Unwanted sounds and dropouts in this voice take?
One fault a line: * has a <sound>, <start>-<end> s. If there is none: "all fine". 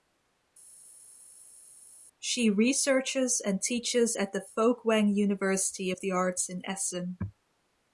all fine